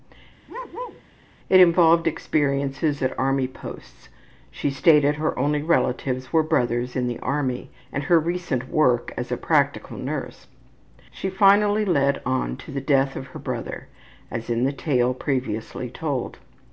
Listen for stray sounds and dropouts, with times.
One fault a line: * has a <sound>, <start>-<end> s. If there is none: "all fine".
* has a bark, 0.5-1.0 s